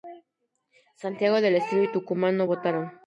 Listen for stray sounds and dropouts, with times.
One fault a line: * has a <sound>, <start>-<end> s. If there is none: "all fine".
all fine